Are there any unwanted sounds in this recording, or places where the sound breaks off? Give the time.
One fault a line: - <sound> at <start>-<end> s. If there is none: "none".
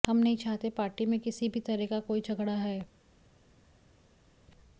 none